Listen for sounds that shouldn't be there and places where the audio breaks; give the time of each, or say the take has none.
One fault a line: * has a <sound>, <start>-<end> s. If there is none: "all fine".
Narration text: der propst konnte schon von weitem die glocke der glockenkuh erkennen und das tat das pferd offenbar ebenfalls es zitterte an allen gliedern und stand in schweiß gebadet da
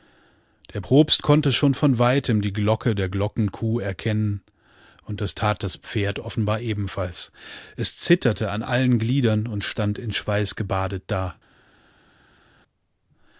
all fine